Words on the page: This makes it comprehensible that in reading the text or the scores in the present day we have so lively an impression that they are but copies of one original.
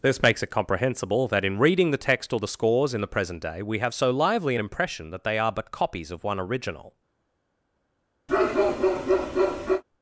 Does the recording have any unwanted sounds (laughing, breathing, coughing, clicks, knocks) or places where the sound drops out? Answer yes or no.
yes